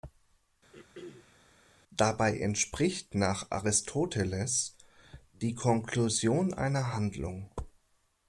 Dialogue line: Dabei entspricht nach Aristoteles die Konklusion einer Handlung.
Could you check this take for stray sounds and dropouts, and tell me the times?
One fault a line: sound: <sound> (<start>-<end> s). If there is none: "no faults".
sound: throat clearing (0.7-1.4 s)